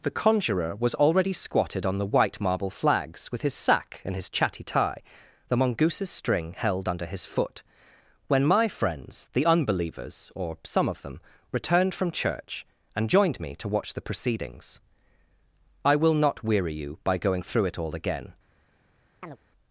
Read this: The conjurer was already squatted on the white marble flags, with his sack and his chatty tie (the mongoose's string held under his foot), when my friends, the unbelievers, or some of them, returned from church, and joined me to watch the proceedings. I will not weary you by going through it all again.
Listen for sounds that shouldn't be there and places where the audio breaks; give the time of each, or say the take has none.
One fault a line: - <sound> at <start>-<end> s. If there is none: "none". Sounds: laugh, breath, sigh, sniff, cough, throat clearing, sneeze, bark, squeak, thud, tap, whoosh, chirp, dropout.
- chirp at 19.2-19.4 s